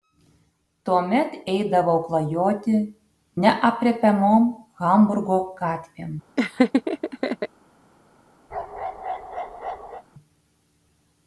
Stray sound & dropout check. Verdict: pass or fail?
fail